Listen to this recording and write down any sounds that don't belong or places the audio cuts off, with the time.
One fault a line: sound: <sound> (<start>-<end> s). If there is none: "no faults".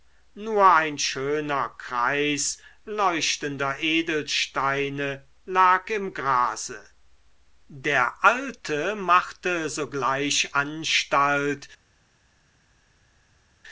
no faults